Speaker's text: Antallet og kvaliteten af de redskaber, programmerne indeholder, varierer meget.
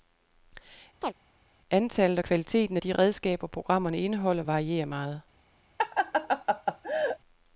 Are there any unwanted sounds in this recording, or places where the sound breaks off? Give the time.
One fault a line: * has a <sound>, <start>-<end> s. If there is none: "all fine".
* has a chirp, 1.0-1.1 s
* has a laugh, 5.8-7.2 s